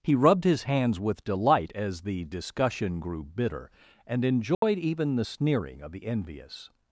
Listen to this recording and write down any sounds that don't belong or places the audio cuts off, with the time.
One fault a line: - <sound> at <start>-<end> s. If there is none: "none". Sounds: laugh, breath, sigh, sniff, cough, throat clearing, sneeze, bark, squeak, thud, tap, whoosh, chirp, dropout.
- dropout at 4.5-4.6 s